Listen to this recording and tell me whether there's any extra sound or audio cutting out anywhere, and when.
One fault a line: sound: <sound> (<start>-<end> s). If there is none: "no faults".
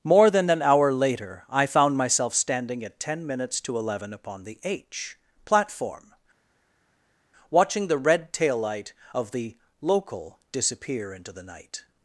no faults